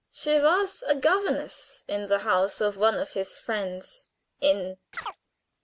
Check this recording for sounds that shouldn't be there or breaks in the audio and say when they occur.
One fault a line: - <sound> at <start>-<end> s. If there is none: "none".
- chirp at 4.9-5.2 s